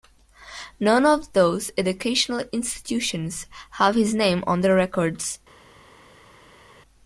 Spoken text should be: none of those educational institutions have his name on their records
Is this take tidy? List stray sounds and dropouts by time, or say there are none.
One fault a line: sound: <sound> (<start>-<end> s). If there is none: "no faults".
no faults